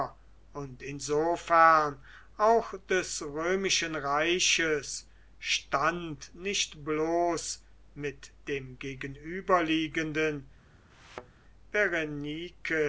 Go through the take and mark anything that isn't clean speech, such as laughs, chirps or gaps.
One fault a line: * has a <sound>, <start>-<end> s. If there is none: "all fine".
* has a thud, 10.9-11.4 s